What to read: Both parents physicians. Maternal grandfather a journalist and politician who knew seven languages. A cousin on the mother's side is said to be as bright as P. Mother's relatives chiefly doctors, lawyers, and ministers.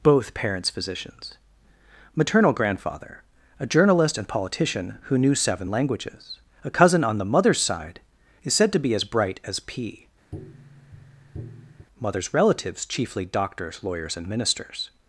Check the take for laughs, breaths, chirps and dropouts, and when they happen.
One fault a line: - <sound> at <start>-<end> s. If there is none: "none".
- tap at 10.3-11.9 s